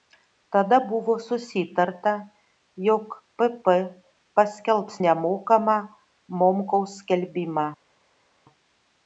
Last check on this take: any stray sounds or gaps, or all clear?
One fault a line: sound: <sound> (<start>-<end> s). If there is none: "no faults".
no faults